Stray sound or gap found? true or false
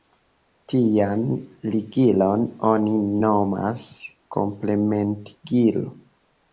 false